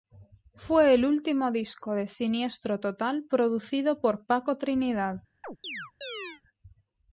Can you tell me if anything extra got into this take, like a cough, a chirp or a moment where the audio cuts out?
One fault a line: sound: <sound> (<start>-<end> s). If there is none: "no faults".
sound: chirp (5.4-6.4 s)